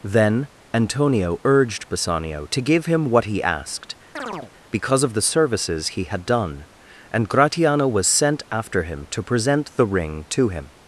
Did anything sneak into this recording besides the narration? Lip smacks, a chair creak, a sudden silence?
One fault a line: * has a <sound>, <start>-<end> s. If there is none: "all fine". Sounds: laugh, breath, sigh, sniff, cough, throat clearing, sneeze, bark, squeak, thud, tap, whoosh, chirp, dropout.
* has a chirp, 4.2-4.5 s